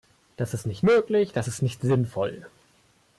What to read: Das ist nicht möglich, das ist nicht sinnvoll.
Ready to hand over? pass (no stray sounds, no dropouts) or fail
pass